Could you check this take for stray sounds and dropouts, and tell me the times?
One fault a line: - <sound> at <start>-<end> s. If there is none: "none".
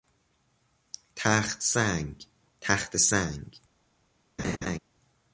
- laugh at 4.4-4.8 s